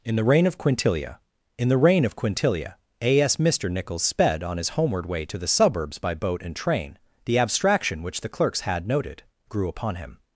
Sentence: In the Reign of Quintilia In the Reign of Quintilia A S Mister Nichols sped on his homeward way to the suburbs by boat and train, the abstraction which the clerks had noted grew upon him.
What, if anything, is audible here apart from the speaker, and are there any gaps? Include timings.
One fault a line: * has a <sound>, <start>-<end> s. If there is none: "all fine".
all fine